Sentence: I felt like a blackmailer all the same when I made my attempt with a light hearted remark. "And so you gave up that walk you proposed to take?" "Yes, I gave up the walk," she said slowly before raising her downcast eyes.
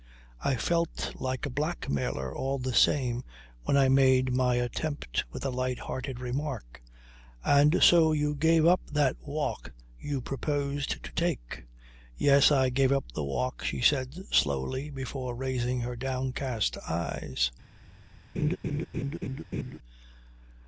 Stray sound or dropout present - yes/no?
yes